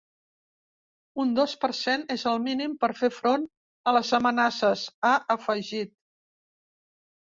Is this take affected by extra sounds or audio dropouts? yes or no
no